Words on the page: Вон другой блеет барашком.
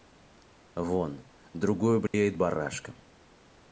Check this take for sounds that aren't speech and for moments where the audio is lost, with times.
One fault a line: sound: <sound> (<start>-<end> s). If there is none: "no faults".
sound: dropout (2.1-2.1 s)